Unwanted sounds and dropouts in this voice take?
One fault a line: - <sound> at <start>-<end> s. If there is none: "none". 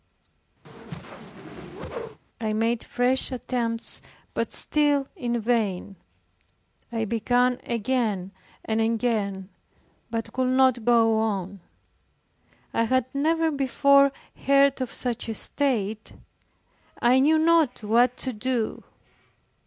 - whoosh at 0.6-2.2 s